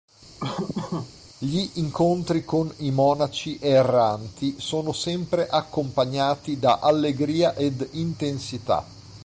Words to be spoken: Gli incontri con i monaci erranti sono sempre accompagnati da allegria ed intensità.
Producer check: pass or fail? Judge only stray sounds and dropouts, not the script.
fail